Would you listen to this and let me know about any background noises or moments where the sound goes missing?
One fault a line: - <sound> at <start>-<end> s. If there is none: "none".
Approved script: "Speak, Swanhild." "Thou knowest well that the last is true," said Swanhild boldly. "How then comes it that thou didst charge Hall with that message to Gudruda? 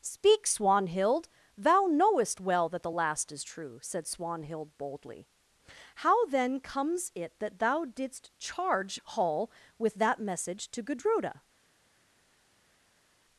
none